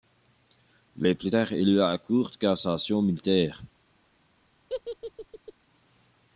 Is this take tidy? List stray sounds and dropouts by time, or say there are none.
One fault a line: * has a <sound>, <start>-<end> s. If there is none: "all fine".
* has a laugh, 4.7-5.5 s